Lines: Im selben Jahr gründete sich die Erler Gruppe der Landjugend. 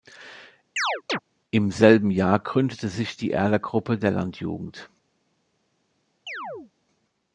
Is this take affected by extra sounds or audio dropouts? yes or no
yes